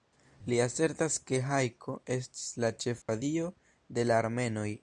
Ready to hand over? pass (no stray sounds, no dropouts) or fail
fail